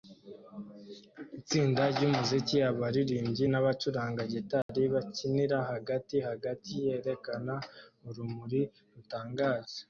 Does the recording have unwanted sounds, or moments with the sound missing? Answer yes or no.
yes